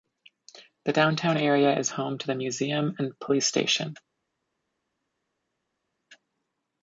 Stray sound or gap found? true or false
false